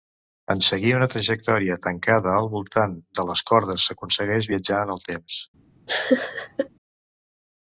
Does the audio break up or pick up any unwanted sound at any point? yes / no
yes